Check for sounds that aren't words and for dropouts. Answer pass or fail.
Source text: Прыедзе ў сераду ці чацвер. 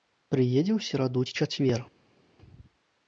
pass